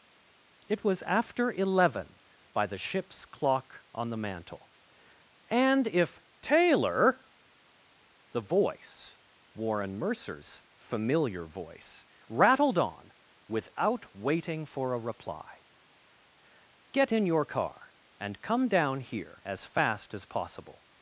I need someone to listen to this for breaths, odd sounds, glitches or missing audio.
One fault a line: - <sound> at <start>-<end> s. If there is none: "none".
none